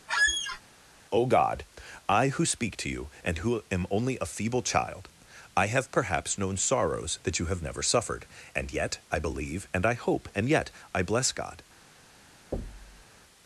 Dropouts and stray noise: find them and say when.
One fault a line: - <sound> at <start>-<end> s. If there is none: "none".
- squeak at 0.1-0.6 s
- thud at 12.5-13.1 s